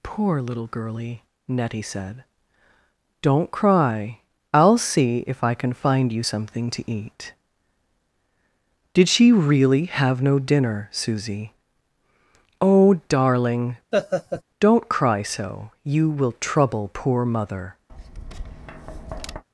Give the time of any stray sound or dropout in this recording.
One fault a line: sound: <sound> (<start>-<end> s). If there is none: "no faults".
sound: laugh (13.9-14.4 s)
sound: tap (17.9-19.4 s)